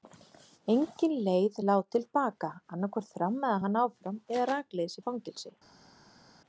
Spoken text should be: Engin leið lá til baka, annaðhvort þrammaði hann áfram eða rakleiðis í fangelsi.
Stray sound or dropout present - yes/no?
no